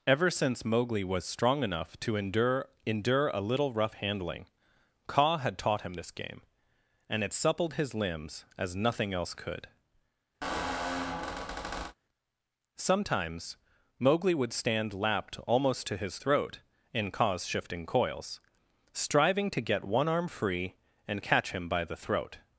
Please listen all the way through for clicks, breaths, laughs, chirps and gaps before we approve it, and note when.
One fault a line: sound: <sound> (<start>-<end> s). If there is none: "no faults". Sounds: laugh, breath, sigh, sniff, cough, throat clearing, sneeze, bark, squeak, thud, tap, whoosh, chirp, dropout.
sound: squeak (10.4-11.9 s)